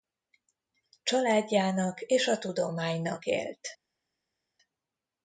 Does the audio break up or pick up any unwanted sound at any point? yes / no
no